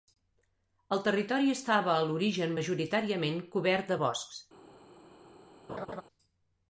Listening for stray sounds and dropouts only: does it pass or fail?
fail